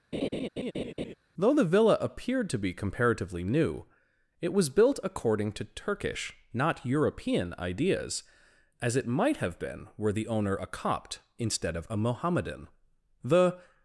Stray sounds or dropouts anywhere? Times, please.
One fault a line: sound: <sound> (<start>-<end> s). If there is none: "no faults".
sound: laugh (0.1-1.1 s)